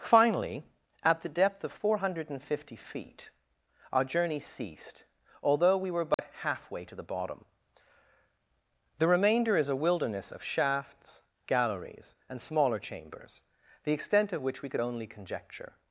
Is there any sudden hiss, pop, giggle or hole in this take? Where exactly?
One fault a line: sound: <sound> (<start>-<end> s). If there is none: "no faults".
sound: dropout (6.1-6.2 s)